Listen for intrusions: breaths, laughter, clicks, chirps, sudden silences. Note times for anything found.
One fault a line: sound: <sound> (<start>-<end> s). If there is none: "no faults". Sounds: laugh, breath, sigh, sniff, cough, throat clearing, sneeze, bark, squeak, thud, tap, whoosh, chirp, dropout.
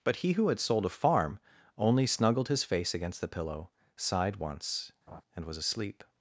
sound: laugh (5.1-5.2 s)